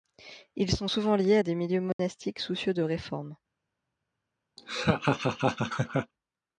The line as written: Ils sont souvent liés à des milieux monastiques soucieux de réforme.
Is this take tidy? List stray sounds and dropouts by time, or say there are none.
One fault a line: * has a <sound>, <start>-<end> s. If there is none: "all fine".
* has a dropout, 1.9-2.0 s
* has a laugh, 4.6-6.1 s